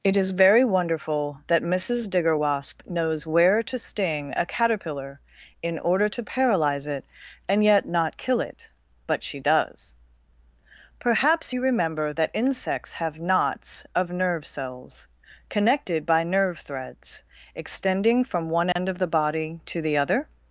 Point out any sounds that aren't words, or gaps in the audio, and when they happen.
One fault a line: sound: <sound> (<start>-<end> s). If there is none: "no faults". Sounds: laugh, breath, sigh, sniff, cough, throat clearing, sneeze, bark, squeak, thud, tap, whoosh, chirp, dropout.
sound: dropout (18.7-18.8 s)